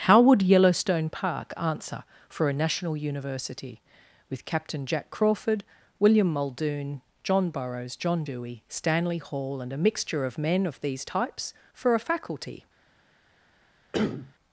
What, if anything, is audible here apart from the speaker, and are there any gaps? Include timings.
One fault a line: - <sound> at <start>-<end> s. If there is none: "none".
- cough at 13.9-14.3 s